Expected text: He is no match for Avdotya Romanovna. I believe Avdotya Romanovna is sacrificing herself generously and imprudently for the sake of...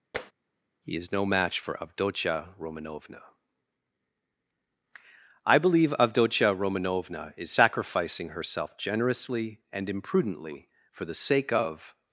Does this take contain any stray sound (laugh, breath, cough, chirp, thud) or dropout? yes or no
yes